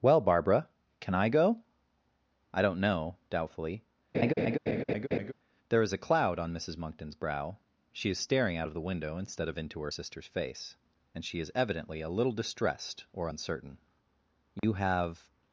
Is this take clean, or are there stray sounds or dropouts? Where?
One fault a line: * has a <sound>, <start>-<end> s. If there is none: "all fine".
* has a laugh, 4.1-5.3 s
* has a dropout, 14.6-14.6 s